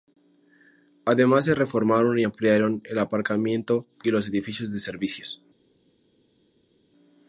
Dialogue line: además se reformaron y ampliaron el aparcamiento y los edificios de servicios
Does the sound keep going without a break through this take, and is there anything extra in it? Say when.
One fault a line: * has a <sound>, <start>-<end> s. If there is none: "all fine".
all fine